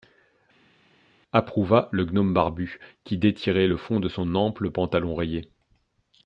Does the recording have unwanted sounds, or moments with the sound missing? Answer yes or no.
no